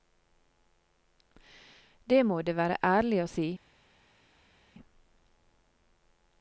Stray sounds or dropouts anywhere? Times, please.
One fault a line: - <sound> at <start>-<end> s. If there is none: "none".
none